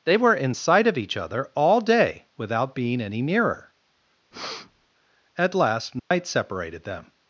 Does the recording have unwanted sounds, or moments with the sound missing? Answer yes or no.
yes